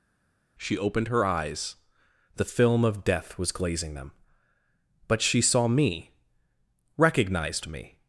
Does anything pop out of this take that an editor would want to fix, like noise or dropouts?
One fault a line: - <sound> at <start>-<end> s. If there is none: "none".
none